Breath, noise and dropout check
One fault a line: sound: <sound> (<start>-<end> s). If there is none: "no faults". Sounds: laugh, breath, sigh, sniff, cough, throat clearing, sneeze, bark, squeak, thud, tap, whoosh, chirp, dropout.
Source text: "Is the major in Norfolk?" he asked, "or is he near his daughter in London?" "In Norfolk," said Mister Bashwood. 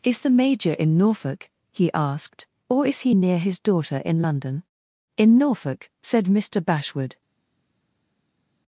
no faults